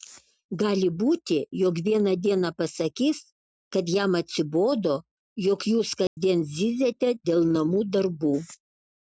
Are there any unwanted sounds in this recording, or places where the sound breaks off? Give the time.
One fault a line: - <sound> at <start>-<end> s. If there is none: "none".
- dropout at 6.1-6.2 s